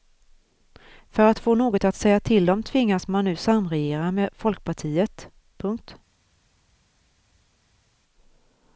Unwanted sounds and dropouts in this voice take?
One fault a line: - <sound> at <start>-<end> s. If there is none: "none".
none